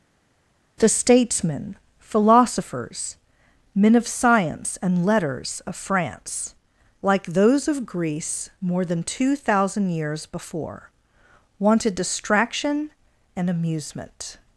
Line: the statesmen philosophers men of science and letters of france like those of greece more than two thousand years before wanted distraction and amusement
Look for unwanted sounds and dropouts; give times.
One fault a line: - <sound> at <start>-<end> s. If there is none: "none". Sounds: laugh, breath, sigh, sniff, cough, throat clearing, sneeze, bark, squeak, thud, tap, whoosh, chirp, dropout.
none